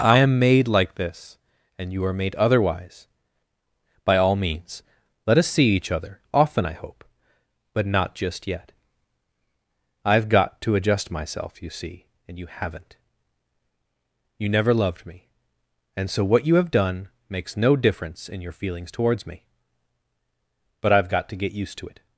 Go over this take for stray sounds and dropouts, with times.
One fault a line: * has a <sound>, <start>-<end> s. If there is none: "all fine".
all fine